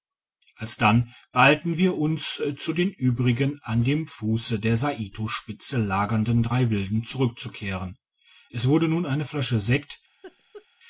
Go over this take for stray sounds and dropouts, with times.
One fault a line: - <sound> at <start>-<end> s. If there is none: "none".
- laugh at 10.2-10.7 s